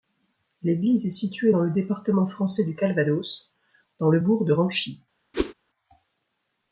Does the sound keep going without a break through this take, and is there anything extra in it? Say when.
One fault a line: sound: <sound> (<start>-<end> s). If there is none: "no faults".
sound: whoosh (5.3-5.5 s)